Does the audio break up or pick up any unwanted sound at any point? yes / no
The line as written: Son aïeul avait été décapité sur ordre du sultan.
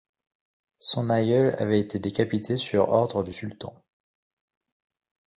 no